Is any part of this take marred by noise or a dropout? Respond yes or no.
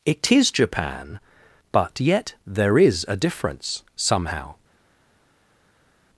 no